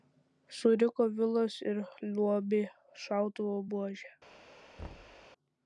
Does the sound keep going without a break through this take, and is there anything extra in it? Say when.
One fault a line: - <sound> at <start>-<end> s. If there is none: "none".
- thud at 4.8-5.3 s